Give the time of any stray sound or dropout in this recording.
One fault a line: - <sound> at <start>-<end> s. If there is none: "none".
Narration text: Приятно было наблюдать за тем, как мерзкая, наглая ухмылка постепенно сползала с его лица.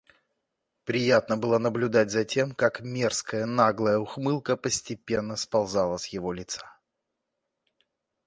none